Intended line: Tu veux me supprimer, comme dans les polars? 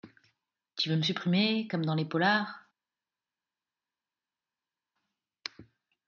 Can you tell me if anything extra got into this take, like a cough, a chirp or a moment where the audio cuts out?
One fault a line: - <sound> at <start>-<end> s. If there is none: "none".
none